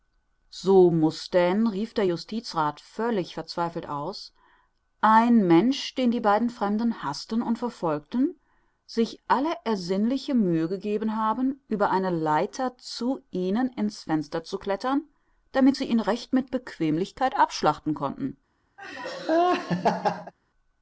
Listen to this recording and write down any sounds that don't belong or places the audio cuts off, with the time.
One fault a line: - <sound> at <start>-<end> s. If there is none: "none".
- laugh at 18.8-20.3 s